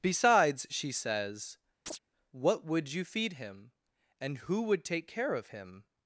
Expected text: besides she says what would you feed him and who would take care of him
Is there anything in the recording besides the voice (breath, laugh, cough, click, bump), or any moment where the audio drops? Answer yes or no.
yes